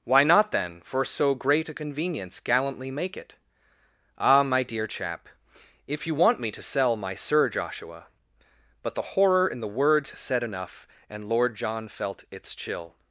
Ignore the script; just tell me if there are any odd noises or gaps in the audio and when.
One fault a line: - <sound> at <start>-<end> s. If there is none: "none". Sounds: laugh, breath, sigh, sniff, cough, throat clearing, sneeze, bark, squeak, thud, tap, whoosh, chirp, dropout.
none